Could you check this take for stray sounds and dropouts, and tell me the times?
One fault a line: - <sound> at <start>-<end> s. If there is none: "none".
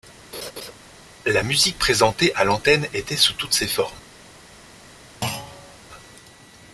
- laugh at 0.3-0.7 s
- thud at 5.2-5.8 s